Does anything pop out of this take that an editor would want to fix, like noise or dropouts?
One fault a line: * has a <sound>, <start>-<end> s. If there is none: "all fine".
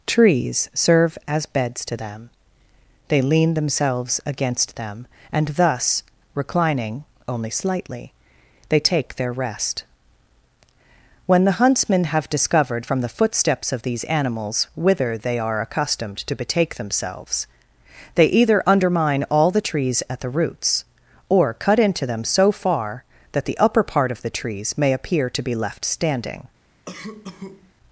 * has a cough, 26.9-27.7 s